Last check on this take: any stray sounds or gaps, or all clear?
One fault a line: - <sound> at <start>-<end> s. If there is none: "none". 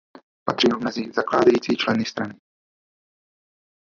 none